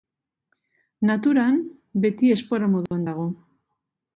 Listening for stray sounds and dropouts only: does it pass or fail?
fail